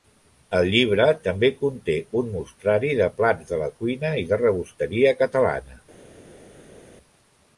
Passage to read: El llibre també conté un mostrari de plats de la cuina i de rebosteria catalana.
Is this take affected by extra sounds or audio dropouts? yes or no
no